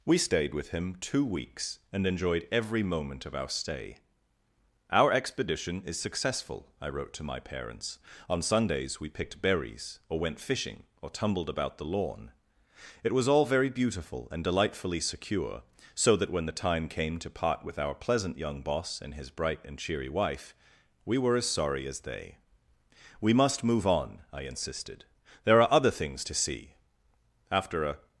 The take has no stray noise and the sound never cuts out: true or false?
true